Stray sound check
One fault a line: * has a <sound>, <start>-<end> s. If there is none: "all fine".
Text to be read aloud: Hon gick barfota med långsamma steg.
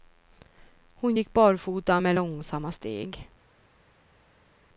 all fine